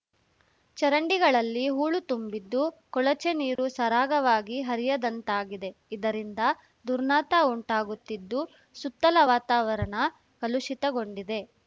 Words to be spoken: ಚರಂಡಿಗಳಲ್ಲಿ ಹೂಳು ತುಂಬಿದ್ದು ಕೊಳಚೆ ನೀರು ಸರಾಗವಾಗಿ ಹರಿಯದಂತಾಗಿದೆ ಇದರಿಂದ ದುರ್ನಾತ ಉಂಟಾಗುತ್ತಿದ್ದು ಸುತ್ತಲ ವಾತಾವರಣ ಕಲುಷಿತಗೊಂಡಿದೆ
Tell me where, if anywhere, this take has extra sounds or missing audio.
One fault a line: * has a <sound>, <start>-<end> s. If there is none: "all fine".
* has a dropout, 3.6-3.6 s